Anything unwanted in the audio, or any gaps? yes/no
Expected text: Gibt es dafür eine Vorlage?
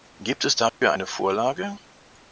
yes